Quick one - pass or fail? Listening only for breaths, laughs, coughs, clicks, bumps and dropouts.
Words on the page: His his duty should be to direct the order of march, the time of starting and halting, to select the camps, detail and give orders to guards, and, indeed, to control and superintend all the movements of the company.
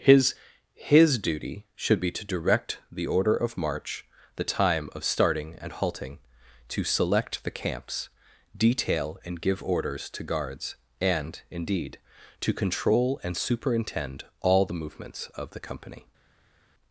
pass